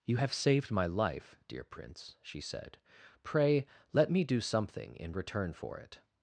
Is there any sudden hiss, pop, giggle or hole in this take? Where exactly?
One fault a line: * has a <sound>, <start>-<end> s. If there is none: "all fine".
all fine